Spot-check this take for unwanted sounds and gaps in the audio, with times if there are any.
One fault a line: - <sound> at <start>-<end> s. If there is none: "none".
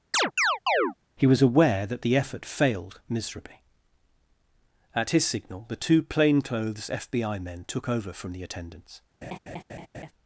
- chirp at 0.1-0.9 s
- laugh at 9.2-10.1 s